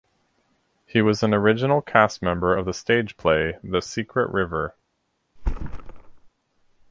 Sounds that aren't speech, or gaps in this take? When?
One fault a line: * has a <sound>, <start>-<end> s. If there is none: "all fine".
* has a thud, 5.4-6.3 s